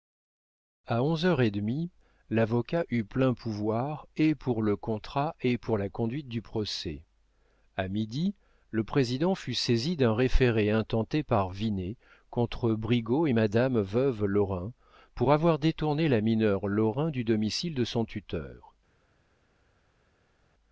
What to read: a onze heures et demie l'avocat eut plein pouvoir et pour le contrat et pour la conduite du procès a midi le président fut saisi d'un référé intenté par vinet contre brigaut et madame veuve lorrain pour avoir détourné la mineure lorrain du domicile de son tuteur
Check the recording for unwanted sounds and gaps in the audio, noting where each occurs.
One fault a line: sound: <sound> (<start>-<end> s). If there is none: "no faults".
no faults